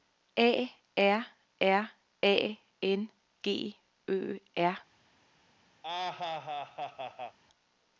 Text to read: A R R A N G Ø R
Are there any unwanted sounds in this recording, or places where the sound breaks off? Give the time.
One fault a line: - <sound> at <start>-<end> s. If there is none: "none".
- laugh at 5.8-7.4 s